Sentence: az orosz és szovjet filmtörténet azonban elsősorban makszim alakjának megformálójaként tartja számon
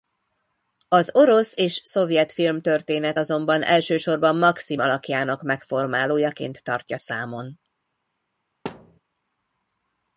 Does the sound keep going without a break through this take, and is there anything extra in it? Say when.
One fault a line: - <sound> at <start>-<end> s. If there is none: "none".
- thud at 8.7-9.0 s